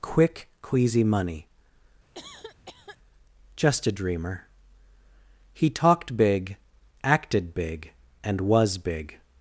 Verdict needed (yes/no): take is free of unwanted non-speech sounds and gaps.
no